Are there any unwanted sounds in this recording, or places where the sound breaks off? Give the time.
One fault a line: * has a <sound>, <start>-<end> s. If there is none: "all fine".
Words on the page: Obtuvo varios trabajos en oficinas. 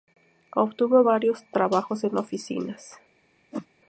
* has a whoosh, 3.5-3.7 s